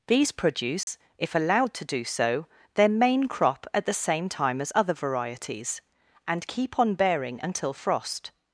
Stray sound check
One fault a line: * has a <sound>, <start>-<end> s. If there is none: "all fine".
* has a dropout, 0.8-0.9 s